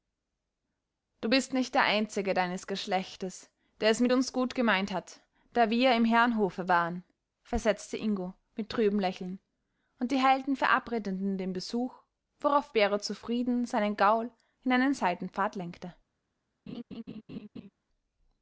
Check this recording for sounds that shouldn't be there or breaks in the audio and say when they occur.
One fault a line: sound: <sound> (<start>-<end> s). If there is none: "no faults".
sound: laugh (16.7-17.7 s)